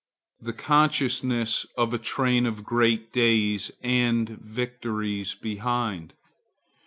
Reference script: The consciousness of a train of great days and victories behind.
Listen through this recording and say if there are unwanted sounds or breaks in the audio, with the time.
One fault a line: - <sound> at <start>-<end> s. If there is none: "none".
none